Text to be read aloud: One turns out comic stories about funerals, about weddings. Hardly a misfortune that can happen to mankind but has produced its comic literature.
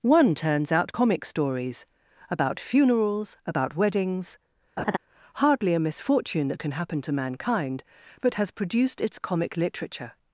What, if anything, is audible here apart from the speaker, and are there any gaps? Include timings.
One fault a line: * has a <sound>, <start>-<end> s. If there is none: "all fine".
* has a laugh, 4.8-5.0 s